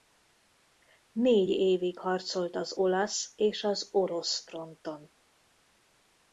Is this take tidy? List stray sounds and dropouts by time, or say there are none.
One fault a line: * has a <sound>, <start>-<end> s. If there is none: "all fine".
all fine